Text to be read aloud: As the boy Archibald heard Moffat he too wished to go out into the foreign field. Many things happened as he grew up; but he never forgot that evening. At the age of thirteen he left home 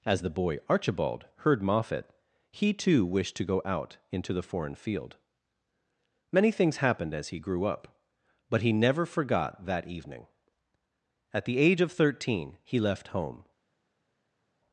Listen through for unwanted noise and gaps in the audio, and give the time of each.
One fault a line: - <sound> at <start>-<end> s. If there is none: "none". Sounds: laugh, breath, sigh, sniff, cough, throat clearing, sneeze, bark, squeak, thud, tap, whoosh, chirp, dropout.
none